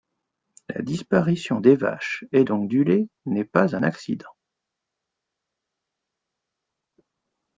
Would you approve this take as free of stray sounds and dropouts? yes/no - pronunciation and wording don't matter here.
yes